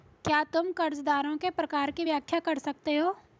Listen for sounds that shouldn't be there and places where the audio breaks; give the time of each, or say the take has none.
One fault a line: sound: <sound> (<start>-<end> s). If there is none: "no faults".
no faults